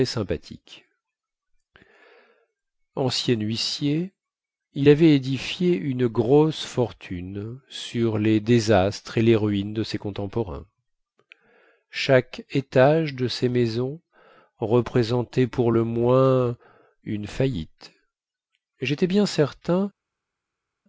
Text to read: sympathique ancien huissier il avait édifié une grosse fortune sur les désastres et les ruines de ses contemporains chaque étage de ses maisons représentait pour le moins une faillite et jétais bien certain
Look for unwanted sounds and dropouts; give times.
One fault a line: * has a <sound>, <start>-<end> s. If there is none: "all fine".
all fine